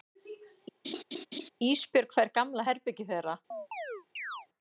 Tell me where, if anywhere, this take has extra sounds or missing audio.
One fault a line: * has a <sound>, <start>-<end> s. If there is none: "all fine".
* has a laugh, 0.8-1.5 s
* has a chirp, 3.5-4.5 s